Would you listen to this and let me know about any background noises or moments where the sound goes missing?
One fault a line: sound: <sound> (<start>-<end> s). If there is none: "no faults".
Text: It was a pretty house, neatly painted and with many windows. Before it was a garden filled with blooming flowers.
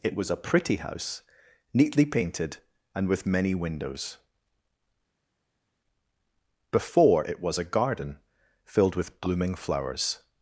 no faults